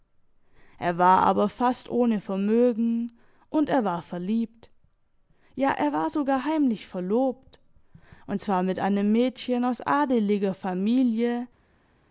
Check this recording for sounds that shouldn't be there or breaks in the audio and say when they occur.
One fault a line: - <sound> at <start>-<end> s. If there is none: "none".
none